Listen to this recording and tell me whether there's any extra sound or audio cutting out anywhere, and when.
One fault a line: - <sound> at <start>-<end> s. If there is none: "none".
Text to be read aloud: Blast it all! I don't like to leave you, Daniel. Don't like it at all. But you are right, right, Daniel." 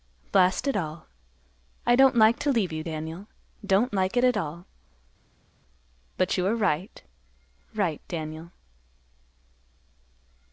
none